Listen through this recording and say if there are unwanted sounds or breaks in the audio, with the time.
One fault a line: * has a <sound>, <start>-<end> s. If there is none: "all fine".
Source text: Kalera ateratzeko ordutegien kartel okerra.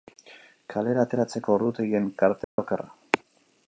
* has a dropout, 2.4-2.6 s